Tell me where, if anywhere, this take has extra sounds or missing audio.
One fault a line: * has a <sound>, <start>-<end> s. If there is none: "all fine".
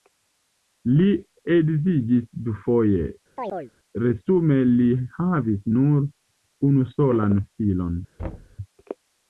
* has a chirp, 3.4-3.7 s
* has a thud, 8.2-8.6 s